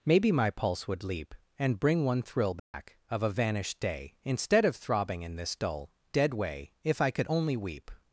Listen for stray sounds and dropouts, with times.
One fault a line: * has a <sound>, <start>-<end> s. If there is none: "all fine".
* has a dropout, 2.6-2.7 s